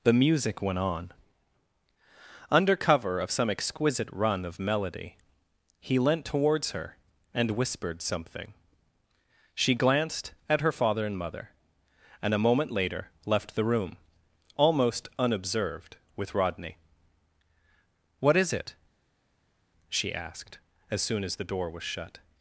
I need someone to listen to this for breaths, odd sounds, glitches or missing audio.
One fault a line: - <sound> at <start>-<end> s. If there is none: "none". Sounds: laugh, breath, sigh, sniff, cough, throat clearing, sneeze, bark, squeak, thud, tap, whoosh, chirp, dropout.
none